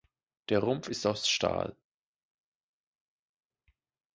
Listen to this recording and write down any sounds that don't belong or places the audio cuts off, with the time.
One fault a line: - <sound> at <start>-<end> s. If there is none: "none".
none